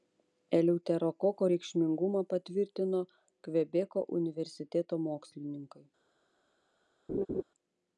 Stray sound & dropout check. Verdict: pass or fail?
fail